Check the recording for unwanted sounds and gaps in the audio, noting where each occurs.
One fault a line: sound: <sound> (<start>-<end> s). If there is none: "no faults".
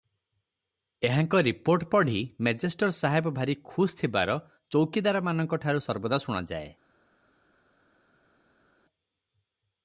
no faults